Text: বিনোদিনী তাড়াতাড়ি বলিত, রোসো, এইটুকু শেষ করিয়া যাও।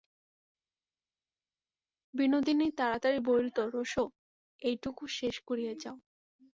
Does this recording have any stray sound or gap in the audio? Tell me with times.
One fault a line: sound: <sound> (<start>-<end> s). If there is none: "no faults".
no faults